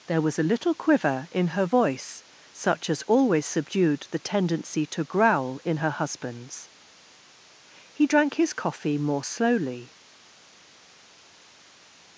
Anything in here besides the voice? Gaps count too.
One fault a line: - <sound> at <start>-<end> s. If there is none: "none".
none